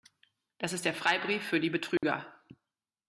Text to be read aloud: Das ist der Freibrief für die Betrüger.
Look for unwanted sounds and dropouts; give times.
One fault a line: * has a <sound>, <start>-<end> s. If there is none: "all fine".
* has a dropout, 2.0-2.0 s